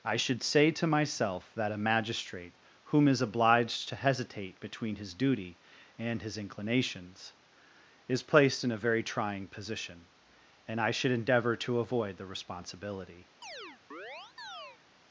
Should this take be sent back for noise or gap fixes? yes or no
yes